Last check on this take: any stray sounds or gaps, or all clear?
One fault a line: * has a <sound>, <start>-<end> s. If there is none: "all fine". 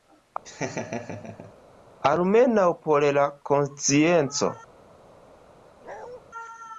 * has a laugh, 0.4-1.5 s
* has a bark, 5.8-6.2 s